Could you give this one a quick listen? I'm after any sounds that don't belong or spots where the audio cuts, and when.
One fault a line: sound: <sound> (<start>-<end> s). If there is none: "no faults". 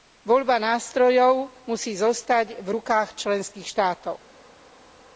no faults